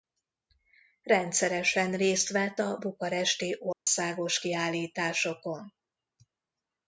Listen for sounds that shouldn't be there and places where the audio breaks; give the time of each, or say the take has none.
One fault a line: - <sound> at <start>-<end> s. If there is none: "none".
- dropout at 3.7-3.9 s